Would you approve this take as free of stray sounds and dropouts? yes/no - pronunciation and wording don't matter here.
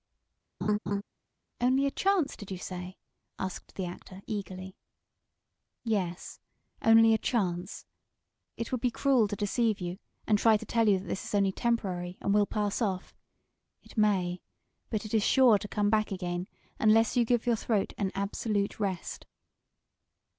no